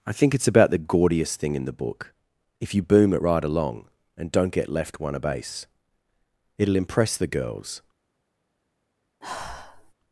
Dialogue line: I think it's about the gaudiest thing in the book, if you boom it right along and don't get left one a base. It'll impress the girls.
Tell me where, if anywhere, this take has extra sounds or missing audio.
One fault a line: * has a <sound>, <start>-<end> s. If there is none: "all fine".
* has a sigh, 9.2-9.9 s